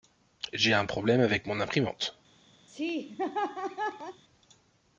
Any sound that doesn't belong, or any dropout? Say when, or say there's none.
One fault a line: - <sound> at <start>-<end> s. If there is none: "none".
- laugh at 2.7-4.2 s